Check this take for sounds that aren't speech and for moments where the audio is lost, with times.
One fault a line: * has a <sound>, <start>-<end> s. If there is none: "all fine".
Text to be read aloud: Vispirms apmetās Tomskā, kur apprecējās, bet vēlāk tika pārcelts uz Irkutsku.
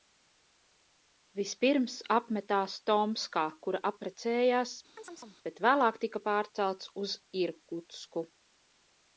* has a chirp, 5.0-5.4 s